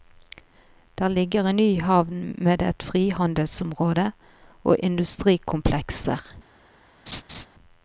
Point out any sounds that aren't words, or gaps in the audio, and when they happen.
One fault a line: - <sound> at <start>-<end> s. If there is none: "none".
- laugh at 7.1-7.5 s